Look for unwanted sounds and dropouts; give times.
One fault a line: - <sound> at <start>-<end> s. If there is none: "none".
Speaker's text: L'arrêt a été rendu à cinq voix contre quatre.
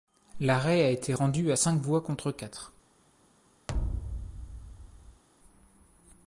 - thud at 3.7-5.2 s